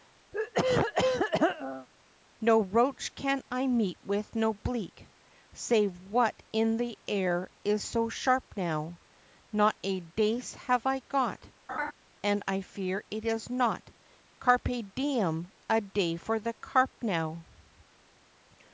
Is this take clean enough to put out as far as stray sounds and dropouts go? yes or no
no